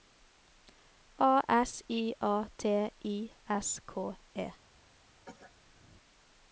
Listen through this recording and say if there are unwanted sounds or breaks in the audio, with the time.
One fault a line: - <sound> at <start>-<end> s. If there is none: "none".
- cough at 5.2-5.5 s